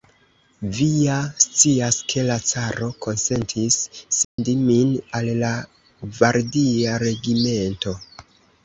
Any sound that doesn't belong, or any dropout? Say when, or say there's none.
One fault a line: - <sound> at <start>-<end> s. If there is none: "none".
- dropout at 4.2-4.4 s